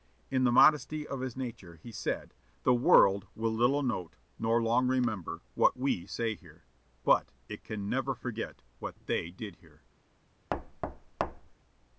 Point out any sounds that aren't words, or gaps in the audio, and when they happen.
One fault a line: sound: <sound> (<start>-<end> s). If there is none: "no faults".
sound: thud (10.5-11.6 s)